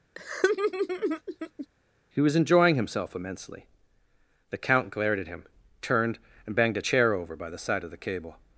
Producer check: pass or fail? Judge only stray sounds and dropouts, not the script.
fail